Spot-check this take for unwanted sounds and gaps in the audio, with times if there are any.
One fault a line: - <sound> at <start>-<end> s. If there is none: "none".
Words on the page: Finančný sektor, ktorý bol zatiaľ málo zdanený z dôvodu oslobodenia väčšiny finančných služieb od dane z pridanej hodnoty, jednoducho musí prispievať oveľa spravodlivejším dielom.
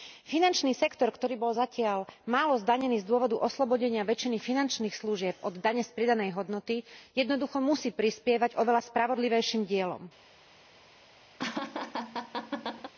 - laugh at 11.4-12.9 s